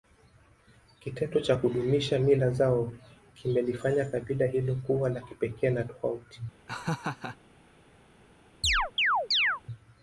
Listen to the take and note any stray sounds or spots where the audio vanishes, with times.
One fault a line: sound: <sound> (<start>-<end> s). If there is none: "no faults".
sound: laugh (6.7-7.4 s)
sound: chirp (8.6-9.6 s)